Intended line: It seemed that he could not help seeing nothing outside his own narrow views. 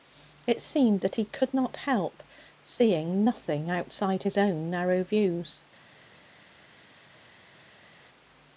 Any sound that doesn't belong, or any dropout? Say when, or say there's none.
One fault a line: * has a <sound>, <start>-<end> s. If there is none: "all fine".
all fine